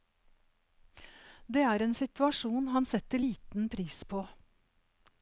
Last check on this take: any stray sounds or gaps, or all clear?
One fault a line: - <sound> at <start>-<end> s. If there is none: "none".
none